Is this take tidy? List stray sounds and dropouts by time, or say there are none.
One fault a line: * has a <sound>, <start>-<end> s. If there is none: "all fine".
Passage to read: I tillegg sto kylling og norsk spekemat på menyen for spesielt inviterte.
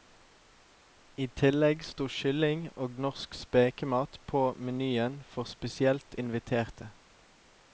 all fine